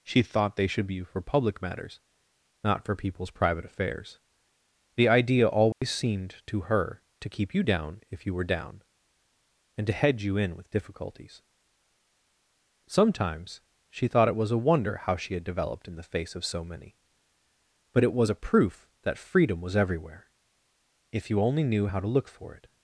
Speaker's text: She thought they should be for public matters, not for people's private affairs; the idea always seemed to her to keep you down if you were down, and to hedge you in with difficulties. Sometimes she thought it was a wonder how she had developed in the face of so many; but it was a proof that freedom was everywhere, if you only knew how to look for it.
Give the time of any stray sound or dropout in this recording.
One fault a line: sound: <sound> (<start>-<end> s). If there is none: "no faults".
sound: dropout (5.7-5.8 s)